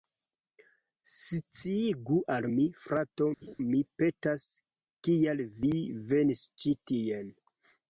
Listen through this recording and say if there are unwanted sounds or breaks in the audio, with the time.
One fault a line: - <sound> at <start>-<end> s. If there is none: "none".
- laugh at 3.4-3.6 s